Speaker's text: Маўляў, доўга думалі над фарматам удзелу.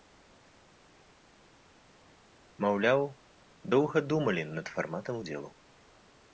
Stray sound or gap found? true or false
false